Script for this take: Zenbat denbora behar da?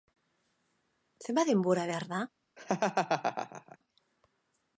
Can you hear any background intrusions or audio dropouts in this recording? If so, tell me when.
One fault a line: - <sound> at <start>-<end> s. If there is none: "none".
- laugh at 2.6-3.8 s